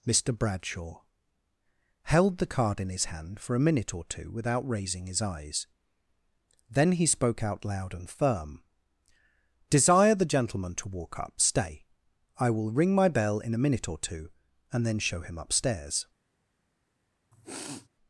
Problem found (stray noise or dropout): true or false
true